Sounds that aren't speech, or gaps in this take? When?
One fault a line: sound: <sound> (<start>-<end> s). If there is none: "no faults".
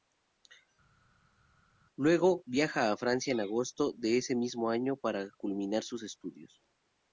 no faults